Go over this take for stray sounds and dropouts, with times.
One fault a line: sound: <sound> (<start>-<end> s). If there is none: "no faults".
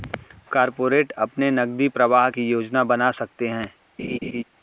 sound: laugh (4.0-4.4 s)